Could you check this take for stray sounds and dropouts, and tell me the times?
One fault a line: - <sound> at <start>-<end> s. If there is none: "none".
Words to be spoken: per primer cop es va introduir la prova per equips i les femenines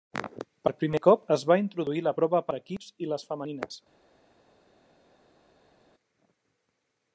none